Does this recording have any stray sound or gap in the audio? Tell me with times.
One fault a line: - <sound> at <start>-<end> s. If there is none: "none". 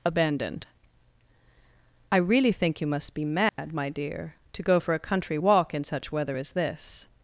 - dropout at 3.5-3.6 s